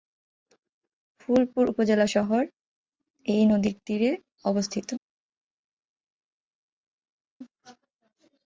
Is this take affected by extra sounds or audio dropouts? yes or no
no